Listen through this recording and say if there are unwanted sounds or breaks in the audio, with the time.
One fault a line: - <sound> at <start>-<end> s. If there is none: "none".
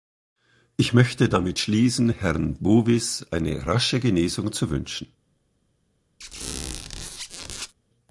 - squeak at 6.2-7.7 s